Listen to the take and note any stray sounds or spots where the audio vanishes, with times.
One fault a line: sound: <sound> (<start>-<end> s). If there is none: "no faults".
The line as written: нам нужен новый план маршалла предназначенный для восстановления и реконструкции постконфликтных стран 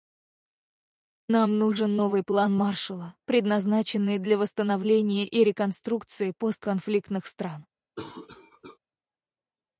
sound: cough (8.0-8.8 s)